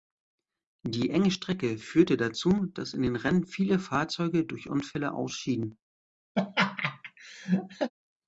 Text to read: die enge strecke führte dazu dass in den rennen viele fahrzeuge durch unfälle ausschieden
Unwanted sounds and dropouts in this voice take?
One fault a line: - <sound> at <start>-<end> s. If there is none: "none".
- laugh at 6.4-7.9 s